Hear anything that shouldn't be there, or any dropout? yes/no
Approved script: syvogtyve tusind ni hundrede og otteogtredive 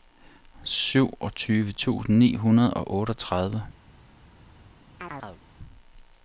yes